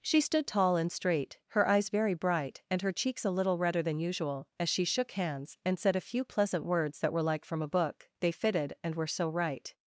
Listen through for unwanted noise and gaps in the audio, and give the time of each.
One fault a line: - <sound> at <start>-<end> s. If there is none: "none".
none